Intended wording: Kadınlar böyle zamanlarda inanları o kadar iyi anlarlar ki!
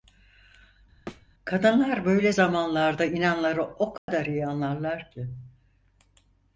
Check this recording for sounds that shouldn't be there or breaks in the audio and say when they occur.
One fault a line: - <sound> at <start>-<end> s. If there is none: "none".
- thud at 1.1-1.3 s
- dropout at 4.0-4.1 s